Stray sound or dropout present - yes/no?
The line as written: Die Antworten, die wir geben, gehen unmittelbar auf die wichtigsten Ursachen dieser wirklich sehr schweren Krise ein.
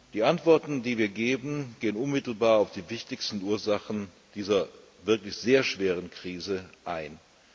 no